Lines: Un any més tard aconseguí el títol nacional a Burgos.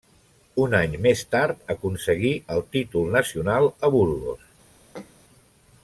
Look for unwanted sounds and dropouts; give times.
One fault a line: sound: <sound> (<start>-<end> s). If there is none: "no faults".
sound: throat clearing (4.9-5.2 s)